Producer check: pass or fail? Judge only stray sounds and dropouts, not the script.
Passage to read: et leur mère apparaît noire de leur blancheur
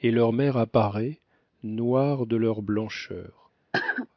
fail